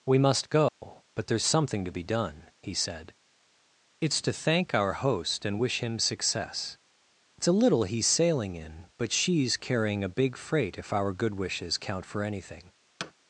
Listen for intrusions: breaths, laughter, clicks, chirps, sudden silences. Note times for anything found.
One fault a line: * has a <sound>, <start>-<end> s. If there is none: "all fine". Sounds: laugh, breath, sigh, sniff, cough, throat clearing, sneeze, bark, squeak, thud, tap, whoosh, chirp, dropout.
* has a dropout, 0.7-0.8 s
* has a thud, 13.0-13.1 s